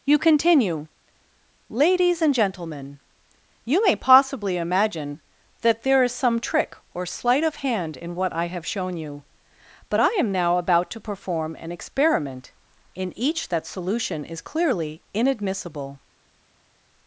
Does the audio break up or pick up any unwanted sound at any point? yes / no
no